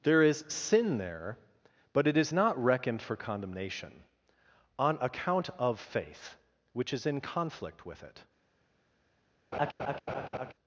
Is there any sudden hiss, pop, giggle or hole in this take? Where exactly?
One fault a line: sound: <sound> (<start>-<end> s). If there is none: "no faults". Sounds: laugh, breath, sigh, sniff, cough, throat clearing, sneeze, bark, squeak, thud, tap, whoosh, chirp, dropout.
sound: laugh (9.5-10.5 s)